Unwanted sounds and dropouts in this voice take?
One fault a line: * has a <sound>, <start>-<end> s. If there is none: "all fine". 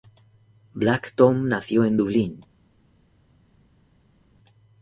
all fine